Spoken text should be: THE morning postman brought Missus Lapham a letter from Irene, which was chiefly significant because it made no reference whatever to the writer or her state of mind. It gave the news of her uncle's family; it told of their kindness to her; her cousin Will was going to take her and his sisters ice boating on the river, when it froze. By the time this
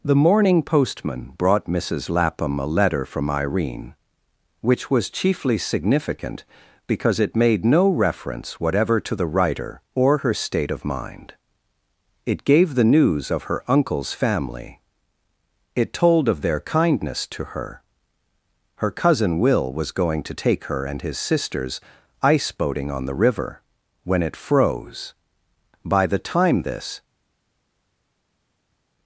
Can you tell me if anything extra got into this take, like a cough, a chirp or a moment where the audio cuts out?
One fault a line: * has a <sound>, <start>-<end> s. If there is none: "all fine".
all fine